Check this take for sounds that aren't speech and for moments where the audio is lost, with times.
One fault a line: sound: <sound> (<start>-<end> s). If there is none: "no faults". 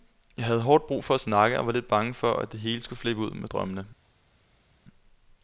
no faults